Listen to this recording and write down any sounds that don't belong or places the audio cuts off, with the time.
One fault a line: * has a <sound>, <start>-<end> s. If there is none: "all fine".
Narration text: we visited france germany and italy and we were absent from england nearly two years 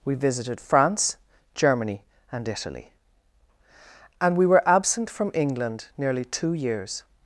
all fine